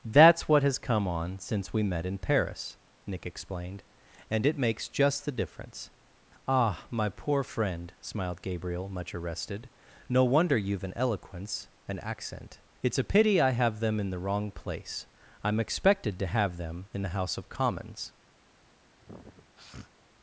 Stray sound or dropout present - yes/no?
yes